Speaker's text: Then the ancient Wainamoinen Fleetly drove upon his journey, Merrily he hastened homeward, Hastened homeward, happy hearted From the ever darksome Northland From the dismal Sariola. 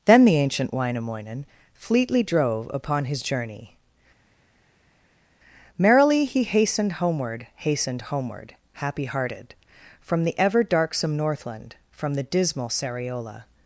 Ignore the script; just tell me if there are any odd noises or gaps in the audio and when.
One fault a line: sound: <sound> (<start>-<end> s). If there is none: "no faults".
no faults